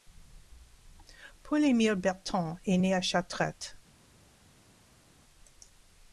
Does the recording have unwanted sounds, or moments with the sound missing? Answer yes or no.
no